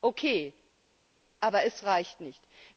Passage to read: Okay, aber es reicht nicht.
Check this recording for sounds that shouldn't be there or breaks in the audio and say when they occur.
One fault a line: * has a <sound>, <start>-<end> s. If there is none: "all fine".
all fine